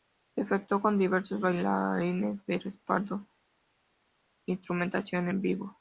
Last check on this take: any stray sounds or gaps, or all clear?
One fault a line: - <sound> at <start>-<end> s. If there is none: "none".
none